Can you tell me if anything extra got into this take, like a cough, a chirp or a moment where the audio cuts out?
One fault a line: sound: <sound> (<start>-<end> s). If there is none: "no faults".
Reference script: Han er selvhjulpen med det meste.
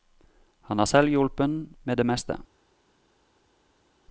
no faults